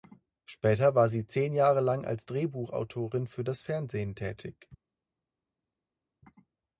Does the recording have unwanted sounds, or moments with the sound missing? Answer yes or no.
no